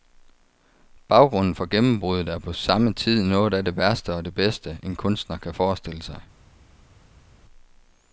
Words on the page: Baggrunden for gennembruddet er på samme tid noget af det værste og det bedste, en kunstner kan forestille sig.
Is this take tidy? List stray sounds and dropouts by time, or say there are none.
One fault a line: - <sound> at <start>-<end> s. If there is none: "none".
none